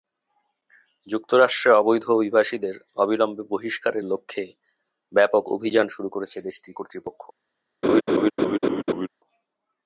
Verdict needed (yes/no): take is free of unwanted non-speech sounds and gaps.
no